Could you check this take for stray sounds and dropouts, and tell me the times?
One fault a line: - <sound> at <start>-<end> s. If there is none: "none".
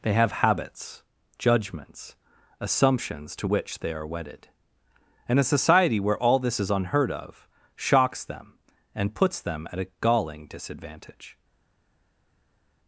none